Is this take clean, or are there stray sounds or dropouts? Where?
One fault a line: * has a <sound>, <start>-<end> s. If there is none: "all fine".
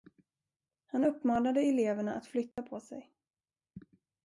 * has a dropout, 2.5-2.6 s